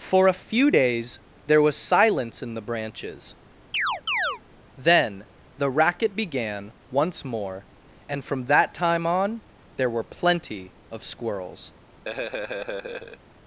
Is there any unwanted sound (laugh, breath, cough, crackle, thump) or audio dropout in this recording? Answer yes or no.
yes